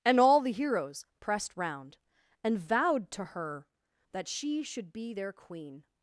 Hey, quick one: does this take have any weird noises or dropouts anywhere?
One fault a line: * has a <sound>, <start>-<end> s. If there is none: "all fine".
all fine